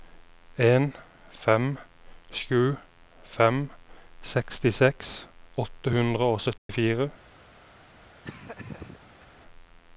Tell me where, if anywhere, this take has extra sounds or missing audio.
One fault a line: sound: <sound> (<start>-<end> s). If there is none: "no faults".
sound: dropout (6.6-6.7 s)
sound: laugh (8.2-9.3 s)